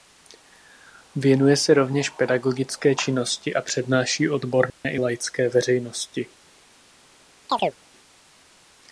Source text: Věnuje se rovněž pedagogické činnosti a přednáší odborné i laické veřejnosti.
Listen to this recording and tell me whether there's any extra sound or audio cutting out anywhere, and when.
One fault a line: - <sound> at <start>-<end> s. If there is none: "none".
- dropout at 4.7-4.8 s
- chirp at 7.5-7.8 s